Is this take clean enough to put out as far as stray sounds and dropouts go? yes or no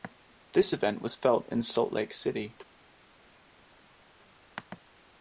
yes